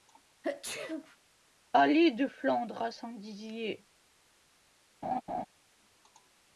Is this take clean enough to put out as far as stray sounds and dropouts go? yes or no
no